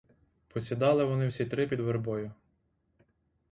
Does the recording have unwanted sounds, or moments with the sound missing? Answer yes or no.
no